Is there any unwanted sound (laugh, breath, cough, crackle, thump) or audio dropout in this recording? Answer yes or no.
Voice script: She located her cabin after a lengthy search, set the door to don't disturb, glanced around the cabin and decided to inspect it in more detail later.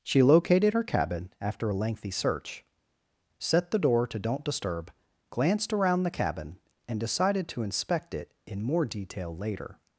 no